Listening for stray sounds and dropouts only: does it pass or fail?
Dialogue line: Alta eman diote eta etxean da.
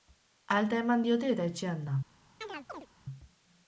fail